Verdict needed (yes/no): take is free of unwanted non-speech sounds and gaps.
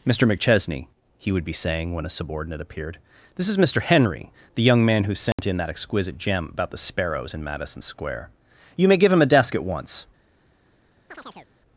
no